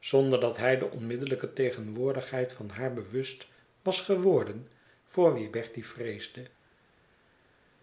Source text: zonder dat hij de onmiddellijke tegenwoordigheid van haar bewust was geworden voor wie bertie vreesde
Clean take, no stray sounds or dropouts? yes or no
yes